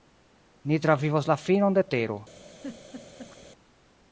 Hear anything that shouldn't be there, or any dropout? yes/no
yes